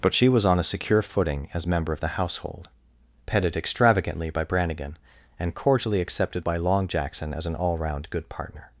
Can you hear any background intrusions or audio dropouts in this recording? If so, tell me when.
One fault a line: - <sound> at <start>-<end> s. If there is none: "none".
none